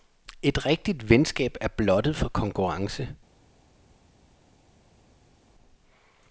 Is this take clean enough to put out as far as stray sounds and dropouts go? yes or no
yes